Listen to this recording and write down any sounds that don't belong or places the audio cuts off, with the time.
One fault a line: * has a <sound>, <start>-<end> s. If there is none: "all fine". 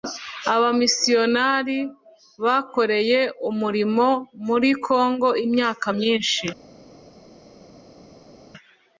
all fine